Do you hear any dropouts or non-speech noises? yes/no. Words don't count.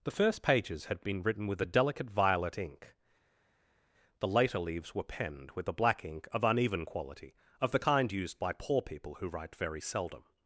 no